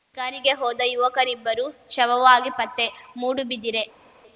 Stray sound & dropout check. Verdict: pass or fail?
pass